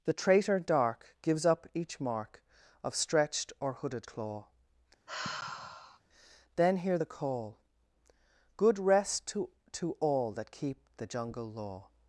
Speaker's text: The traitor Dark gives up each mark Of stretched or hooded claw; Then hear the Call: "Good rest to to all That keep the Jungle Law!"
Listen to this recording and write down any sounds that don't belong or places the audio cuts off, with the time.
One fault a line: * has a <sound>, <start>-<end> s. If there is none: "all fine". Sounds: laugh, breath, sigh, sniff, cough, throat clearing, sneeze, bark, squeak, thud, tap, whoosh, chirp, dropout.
* has a sigh, 5.1-6.0 s